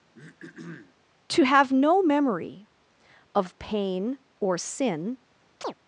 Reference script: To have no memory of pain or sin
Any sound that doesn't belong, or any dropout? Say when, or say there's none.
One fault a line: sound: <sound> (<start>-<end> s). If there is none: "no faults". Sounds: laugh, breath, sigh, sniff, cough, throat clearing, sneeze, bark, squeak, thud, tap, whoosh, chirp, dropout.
sound: throat clearing (0.1-0.9 s)
sound: chirp (5.6-5.7 s)